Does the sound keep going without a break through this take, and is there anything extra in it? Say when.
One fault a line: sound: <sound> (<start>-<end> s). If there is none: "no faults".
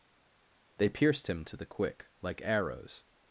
no faults